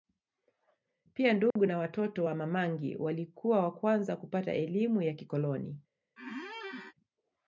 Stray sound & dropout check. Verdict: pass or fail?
fail